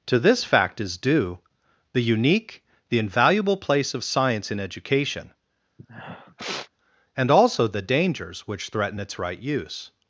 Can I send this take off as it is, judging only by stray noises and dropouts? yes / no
no